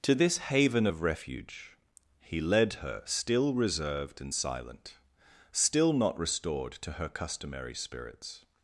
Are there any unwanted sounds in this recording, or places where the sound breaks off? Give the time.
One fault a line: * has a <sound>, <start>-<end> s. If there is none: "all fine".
all fine